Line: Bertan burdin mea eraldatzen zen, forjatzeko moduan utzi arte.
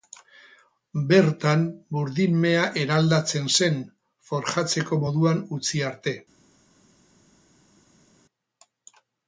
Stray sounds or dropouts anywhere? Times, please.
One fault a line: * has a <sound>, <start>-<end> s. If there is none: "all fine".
all fine